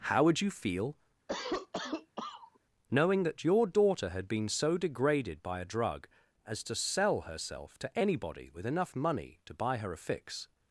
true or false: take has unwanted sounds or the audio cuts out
true